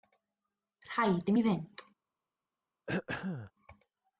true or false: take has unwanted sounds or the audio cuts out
true